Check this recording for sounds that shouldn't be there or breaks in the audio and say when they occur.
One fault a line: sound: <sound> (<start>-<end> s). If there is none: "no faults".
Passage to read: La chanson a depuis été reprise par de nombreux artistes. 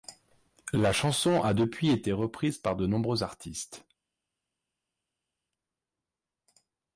no faults